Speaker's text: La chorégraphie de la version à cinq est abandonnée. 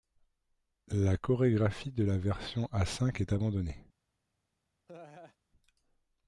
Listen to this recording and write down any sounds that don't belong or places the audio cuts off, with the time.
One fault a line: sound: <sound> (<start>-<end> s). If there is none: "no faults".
sound: laugh (4.9-5.4 s)